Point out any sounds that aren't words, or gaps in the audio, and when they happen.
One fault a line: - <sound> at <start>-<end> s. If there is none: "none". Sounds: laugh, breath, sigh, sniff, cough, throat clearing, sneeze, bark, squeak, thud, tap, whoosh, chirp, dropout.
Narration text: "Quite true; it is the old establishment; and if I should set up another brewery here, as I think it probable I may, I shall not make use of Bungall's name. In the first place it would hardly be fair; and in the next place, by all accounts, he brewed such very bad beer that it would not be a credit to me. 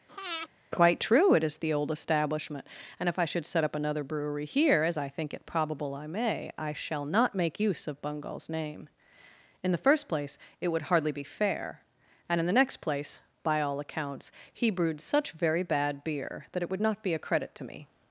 - breath at 0.1-0.5 s